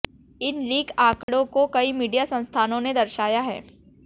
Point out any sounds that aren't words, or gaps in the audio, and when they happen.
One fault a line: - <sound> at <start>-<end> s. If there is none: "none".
- dropout at 1.2-1.3 s